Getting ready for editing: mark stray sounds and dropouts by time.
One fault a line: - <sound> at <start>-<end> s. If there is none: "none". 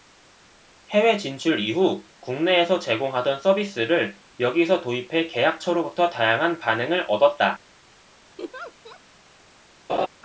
- laugh at 8.4-9.0 s
- laugh at 9.9-10.1 s